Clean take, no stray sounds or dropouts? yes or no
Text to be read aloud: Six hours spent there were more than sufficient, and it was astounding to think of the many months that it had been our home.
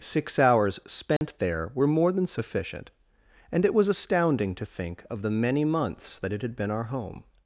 no